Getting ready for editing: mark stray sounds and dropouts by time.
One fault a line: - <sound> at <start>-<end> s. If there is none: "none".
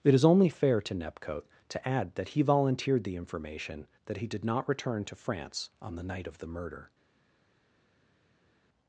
none